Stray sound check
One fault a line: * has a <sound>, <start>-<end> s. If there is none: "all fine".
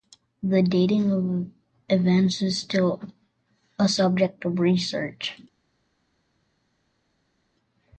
all fine